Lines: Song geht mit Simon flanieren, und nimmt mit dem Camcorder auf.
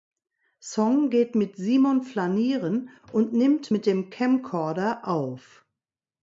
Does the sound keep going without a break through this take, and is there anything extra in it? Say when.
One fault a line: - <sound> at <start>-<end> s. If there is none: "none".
none